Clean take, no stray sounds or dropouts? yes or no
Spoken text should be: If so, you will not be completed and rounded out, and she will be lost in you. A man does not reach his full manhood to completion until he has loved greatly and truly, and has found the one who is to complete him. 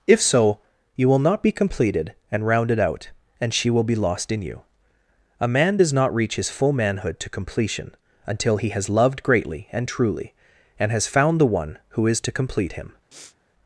no